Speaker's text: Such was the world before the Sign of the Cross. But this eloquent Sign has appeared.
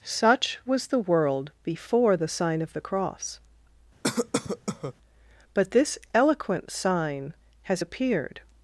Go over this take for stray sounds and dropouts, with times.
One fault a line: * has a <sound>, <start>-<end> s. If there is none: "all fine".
* has a cough, 4.0-4.9 s